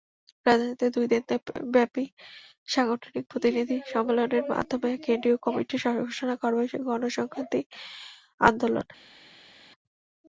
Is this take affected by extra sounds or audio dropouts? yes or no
no